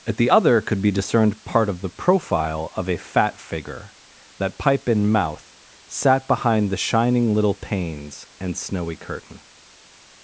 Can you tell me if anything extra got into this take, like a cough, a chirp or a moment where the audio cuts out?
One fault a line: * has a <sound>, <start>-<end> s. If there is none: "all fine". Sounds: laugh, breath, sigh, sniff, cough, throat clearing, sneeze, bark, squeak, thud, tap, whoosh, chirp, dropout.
all fine